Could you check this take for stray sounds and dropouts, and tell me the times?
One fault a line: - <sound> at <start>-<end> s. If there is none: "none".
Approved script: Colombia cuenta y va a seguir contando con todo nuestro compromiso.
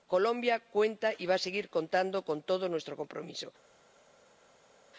none